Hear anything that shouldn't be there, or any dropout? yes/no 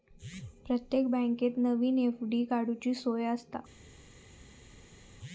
no